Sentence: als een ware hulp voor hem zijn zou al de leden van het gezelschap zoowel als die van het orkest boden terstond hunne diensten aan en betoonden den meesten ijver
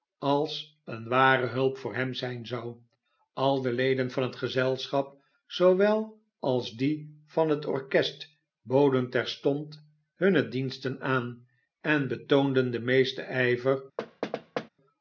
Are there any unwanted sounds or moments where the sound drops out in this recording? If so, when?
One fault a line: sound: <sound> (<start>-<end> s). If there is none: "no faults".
sound: thud (14.0-14.7 s)